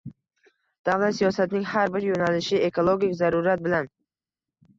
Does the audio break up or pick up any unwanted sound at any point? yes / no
no